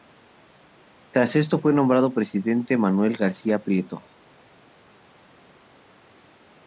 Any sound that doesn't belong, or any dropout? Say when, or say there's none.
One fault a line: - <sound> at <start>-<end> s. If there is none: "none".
none